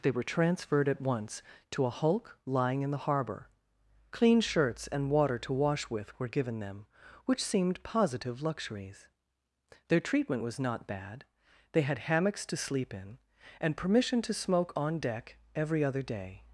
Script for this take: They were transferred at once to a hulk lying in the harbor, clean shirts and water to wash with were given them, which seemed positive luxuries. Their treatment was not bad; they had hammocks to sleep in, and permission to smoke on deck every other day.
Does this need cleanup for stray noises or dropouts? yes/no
no